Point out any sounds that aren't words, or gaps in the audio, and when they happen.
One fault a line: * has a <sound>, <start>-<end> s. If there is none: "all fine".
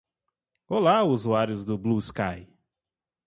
all fine